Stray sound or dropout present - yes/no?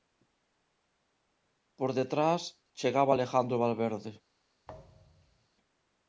yes